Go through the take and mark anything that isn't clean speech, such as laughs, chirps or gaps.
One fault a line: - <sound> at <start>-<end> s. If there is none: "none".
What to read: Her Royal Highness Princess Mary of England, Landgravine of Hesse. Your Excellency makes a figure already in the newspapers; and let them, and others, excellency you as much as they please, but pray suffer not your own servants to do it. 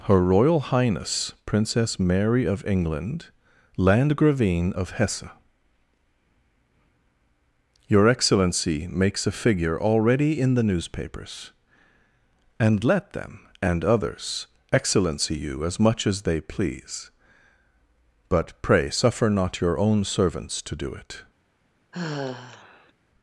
- sigh at 21.9-22.9 s